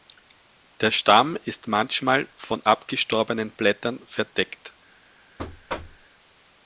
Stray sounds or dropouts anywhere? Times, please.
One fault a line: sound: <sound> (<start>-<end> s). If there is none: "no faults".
sound: thud (5.4-6.1 s)